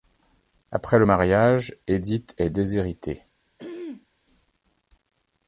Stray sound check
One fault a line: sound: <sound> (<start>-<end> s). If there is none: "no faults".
sound: throat clearing (3.6-4.1 s)